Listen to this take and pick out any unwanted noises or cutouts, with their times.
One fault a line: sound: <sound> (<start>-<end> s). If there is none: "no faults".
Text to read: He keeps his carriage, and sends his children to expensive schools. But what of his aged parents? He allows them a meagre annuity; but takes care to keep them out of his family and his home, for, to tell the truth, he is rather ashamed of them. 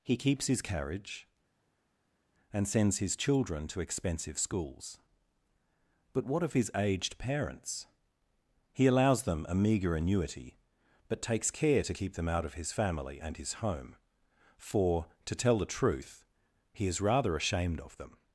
no faults